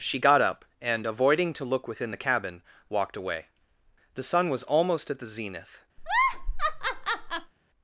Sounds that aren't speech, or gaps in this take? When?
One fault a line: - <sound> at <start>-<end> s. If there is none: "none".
- laugh at 6.0-7.5 s